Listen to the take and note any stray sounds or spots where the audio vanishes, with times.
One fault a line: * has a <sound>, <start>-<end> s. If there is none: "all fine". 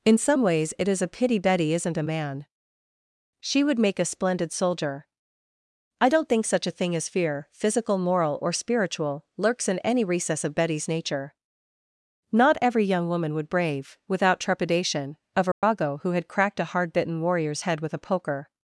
* has a dropout, 15.5-15.6 s